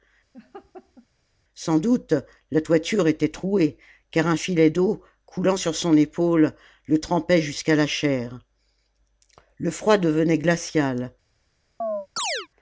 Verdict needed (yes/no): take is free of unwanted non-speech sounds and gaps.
no